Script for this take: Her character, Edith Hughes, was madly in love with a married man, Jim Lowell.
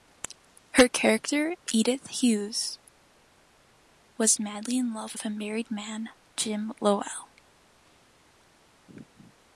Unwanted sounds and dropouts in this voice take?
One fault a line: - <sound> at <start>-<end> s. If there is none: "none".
none